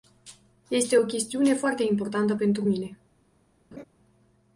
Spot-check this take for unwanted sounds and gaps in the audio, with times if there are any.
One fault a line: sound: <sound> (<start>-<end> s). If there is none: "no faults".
sound: laugh (3.7-3.8 s)